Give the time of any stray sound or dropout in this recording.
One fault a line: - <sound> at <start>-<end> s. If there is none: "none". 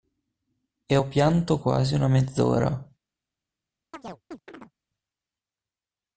- chirp at 3.9-4.7 s